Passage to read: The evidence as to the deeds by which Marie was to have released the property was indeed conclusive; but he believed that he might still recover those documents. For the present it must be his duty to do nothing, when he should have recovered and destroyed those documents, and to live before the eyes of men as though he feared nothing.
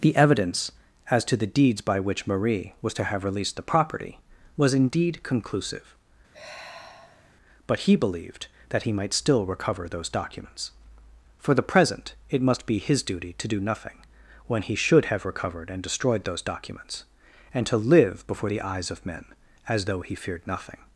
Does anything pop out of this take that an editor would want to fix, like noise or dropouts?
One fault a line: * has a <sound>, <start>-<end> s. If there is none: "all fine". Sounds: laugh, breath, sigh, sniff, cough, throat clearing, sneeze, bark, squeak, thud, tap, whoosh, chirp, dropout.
* has a sigh, 6.3-7.3 s